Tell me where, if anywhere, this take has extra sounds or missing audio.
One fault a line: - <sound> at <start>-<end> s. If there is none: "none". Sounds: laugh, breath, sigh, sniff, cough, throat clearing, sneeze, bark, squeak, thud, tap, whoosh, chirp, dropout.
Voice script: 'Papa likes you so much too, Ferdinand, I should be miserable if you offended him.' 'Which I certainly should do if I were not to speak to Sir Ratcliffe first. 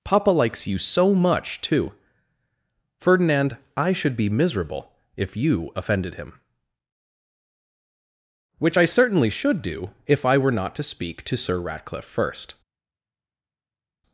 none